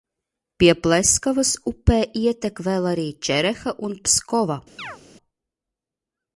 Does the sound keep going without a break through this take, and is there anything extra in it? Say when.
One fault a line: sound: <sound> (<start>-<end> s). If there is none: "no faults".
sound: chirp (4.8-5.0 s)